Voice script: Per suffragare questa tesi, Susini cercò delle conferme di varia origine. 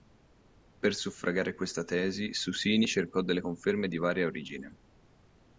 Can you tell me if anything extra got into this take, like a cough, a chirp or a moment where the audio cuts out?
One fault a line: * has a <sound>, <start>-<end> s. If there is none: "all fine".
all fine